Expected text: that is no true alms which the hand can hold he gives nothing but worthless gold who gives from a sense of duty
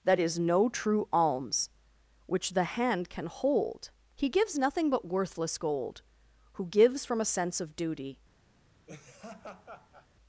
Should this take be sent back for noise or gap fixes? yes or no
yes